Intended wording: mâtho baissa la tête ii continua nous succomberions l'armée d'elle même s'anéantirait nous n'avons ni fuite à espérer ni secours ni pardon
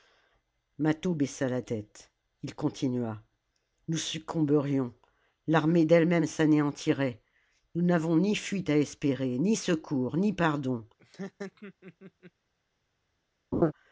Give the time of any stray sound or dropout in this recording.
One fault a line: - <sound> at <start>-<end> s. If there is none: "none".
- laugh at 11.0-12.3 s
- laugh at 13.5-13.7 s